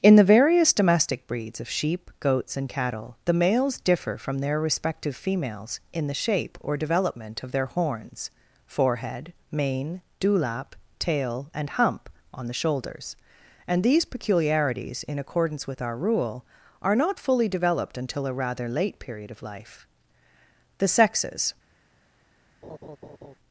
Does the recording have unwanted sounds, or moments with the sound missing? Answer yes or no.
yes